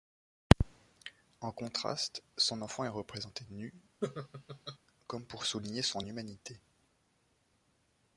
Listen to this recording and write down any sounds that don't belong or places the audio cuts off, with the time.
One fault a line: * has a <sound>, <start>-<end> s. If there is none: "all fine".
* has a laugh, 4.0-4.8 s